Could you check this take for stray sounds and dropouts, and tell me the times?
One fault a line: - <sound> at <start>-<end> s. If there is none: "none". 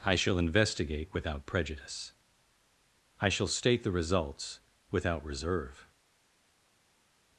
none